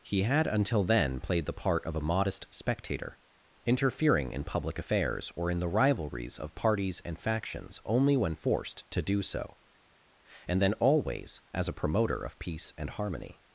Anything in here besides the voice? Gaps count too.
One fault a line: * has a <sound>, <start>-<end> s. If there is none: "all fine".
all fine